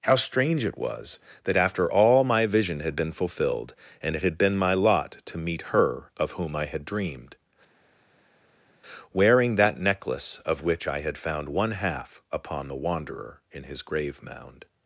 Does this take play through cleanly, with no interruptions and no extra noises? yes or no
yes